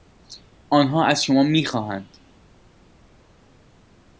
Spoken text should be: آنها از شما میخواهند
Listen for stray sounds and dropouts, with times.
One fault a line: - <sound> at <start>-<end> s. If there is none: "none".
none